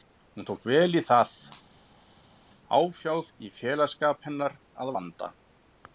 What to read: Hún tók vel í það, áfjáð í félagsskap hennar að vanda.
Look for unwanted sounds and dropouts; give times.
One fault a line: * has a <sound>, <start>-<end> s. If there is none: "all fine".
all fine